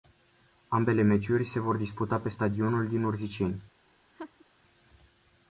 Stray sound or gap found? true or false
true